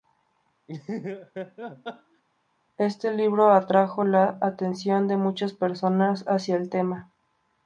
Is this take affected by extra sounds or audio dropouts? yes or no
yes